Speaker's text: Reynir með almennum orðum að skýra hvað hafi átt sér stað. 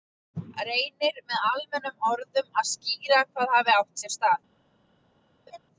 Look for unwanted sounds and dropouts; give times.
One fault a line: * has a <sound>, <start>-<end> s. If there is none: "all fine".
* has a laugh, 5.5-5.6 s